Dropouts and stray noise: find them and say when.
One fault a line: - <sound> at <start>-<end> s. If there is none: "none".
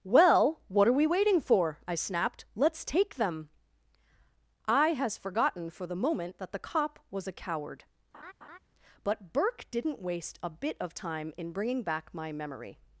- laugh at 8.1-8.6 s